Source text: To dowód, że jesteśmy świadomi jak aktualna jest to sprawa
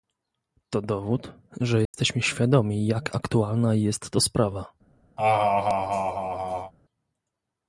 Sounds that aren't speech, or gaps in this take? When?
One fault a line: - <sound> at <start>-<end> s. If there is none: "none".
- dropout at 1.8-1.9 s
- laugh at 5.2-6.7 s